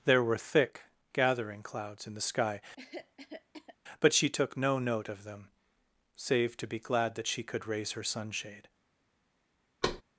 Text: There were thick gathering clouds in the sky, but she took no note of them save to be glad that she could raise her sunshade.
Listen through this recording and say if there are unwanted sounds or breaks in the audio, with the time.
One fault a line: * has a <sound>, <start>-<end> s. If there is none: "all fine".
* has a cough, 2.8-3.8 s
* has a thud, 9.8-10.0 s